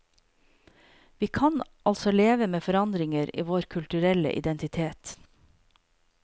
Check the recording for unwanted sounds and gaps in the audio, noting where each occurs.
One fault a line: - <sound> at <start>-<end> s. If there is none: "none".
none